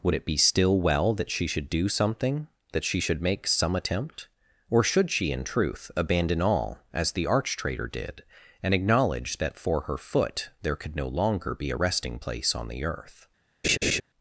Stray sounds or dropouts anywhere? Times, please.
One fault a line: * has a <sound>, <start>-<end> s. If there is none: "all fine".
* has a laugh, 13.6-14.0 s